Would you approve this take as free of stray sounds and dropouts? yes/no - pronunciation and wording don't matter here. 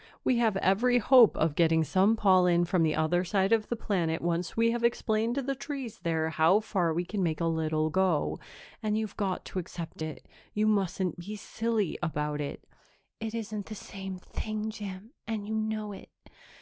yes